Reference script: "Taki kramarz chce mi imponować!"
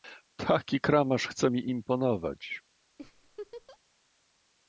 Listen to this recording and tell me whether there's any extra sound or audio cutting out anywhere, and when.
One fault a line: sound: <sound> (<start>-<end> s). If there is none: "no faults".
sound: laugh (3.0-3.8 s)